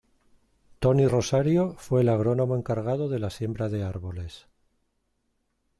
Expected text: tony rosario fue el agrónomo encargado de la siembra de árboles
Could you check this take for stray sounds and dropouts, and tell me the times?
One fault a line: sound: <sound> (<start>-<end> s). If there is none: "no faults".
no faults